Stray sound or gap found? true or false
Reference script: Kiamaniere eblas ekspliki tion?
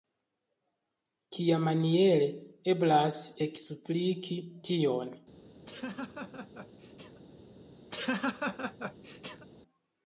true